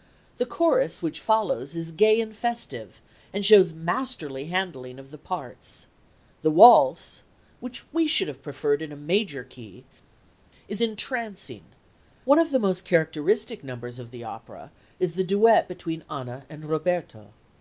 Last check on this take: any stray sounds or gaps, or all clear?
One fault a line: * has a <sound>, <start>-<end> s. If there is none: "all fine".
all fine